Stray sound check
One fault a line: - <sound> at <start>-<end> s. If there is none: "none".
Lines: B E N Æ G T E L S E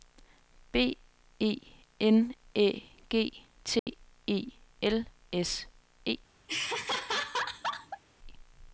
- dropout at 3.8-3.9 s
- laugh at 6.5-8.0 s